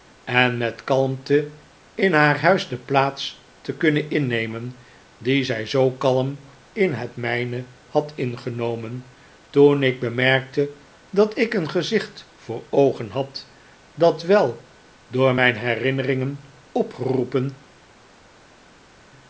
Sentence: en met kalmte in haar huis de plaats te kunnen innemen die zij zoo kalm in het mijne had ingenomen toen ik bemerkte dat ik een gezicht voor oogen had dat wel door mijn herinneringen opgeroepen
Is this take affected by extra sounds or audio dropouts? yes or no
no